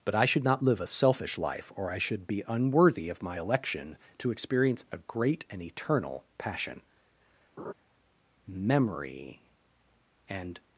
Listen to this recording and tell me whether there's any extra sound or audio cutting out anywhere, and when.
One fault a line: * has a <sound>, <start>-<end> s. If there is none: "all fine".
* has a laugh, 7.6-7.7 s